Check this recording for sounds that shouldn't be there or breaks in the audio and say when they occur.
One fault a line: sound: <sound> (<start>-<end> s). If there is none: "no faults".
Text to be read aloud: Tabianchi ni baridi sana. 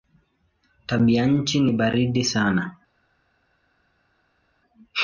no faults